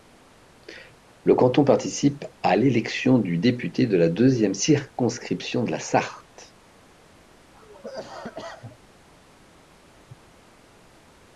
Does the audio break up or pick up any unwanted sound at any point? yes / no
yes